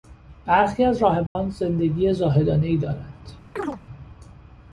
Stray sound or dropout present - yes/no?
yes